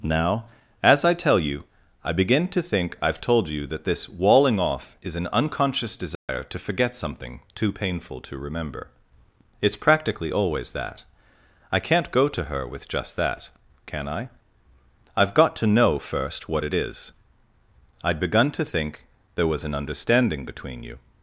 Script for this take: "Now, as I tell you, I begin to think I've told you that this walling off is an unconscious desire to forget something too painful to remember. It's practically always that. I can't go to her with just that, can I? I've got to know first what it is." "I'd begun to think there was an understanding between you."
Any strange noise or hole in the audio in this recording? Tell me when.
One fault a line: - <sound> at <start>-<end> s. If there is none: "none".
- dropout at 6.1-6.3 s